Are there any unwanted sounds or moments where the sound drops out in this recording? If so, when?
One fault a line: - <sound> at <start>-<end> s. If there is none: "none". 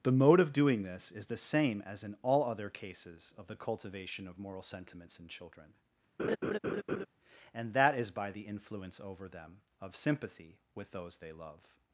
- laugh at 6.2-7.1 s